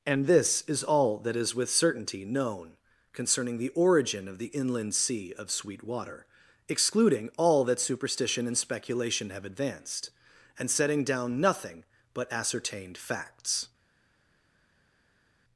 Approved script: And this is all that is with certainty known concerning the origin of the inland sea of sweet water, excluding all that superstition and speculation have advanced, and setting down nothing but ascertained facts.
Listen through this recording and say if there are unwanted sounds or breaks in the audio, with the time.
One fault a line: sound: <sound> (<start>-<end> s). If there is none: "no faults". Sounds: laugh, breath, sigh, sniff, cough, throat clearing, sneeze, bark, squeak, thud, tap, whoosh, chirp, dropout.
no faults